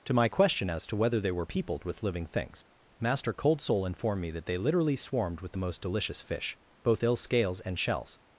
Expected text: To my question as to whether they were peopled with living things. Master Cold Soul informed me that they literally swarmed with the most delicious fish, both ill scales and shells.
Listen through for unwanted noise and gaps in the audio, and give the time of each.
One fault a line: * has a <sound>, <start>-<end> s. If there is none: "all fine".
all fine